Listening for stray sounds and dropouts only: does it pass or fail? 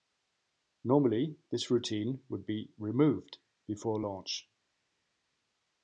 pass